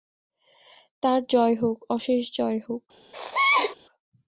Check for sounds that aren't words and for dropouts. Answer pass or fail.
fail